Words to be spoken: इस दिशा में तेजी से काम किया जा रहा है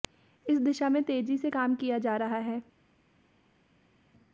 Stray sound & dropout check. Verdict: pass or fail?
pass